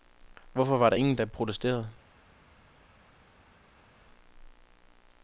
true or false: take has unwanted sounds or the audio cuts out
false